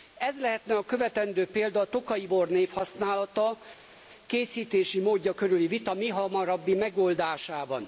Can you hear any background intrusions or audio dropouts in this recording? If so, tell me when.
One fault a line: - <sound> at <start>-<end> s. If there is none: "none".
none